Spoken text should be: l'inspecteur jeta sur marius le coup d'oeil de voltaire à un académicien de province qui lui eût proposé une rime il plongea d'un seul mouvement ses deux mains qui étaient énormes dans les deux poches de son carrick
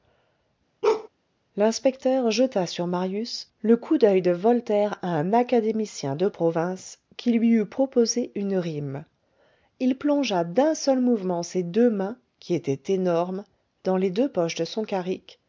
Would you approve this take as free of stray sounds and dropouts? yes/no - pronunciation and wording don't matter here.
no